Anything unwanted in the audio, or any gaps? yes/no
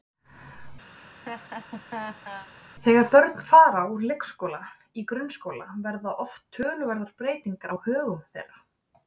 yes